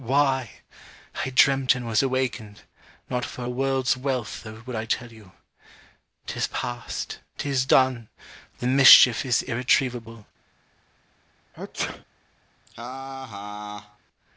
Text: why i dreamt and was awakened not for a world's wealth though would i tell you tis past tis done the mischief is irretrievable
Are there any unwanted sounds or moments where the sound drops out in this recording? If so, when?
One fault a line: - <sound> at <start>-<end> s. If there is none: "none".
- sneeze at 11.5-12.0 s
- laugh at 12.7-14.0 s